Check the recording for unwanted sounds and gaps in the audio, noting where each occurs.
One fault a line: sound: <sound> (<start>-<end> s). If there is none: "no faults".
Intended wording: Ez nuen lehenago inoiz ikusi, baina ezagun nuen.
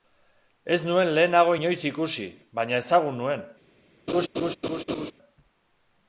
sound: laugh (4.1-5.1 s)